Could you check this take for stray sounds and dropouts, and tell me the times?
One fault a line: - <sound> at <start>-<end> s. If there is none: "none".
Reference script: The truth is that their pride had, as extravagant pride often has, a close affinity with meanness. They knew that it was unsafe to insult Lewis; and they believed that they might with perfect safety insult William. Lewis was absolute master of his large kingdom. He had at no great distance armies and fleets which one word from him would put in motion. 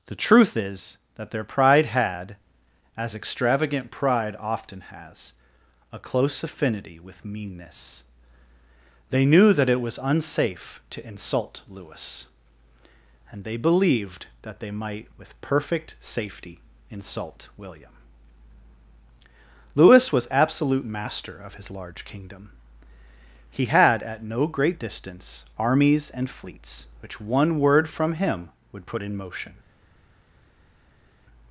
none